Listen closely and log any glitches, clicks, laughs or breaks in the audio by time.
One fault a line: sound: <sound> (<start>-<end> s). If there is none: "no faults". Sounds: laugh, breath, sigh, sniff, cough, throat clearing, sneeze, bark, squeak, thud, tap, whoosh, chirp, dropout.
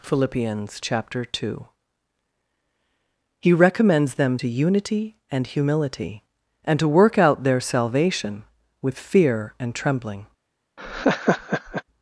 sound: laugh (10.8-11.8 s)